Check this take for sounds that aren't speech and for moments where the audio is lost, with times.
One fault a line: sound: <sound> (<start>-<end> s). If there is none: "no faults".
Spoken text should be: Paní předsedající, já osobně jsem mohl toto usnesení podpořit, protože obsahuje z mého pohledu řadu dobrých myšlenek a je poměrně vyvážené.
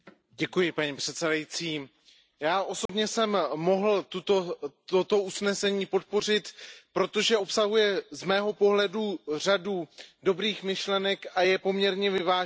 sound: dropout (2.9-2.9 s)